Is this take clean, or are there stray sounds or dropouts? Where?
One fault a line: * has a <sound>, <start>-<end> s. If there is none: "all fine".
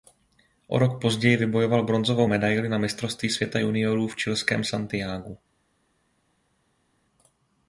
all fine